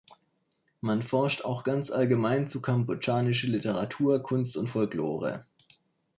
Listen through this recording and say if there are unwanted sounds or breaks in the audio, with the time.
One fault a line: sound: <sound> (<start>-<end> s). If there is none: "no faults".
no faults